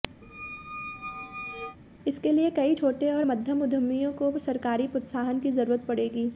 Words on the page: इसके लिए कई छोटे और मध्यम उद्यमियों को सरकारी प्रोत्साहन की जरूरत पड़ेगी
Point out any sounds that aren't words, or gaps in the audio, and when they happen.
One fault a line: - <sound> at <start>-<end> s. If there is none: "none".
- squeak at 0.2-1.8 s